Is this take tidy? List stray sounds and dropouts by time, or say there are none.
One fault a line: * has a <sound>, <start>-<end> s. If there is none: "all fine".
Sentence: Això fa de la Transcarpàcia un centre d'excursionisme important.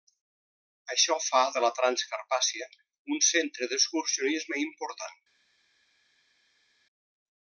all fine